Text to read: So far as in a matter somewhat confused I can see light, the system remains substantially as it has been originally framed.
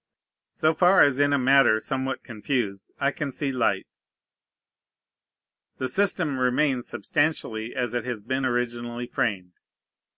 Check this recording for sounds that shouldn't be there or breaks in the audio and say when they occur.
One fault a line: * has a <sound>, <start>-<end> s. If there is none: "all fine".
all fine